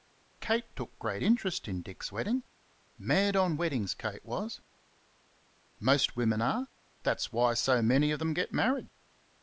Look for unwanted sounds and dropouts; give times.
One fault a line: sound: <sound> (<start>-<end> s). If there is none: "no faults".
no faults